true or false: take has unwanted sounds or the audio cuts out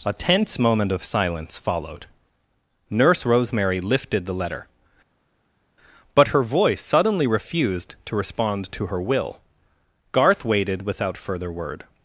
false